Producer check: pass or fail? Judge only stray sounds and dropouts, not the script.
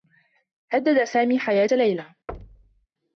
fail